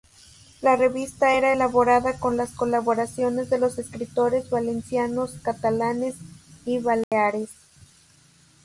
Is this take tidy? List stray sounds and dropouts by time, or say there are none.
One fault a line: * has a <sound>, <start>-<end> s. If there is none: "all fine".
* has a dropout, 7.0-7.1 s